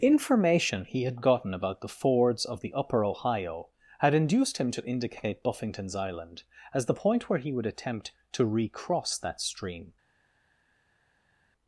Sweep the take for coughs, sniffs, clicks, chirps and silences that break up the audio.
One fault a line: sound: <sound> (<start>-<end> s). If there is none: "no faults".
no faults